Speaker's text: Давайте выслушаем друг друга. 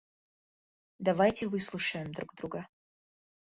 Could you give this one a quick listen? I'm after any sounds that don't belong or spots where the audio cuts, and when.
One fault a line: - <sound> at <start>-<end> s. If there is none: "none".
none